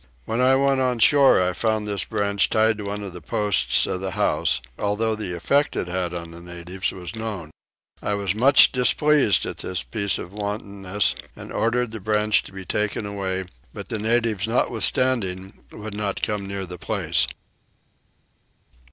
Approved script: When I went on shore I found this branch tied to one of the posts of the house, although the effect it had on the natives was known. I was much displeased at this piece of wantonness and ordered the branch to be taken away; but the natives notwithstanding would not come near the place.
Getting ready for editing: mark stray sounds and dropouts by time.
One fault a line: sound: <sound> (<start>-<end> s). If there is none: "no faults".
no faults